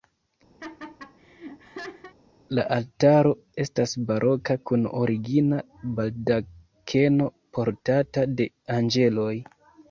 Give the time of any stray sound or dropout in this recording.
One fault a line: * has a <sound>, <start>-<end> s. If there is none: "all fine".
* has a laugh, 0.6-2.1 s